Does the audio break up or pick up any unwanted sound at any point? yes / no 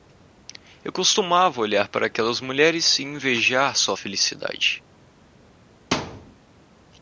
yes